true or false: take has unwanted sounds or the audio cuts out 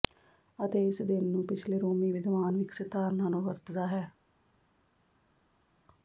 false